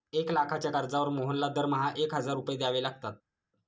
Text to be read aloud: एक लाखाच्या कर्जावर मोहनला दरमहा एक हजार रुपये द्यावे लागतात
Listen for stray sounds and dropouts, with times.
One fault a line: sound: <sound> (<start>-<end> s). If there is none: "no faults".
no faults